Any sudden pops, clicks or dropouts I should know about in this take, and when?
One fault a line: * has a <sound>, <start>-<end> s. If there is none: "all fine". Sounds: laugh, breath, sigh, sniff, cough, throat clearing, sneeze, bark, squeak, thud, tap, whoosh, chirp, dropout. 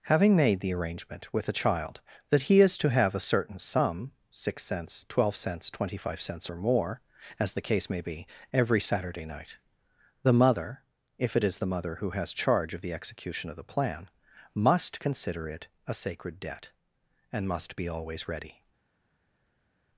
all fine